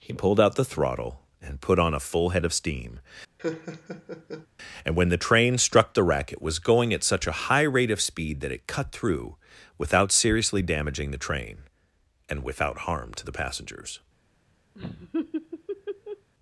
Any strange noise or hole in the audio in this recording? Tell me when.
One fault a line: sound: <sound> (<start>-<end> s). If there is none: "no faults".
sound: laugh (3.4-4.5 s)
sound: laugh (14.7-16.3 s)